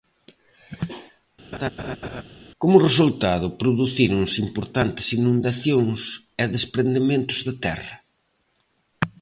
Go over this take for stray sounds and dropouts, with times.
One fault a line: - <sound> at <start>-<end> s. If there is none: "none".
- laugh at 1.5-2.2 s